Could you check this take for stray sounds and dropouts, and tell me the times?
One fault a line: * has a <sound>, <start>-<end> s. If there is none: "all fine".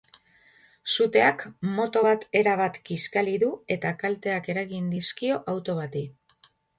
all fine